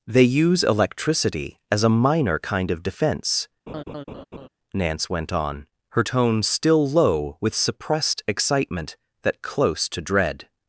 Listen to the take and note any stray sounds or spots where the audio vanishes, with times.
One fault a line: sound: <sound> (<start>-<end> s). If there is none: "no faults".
sound: laugh (3.7-4.5 s)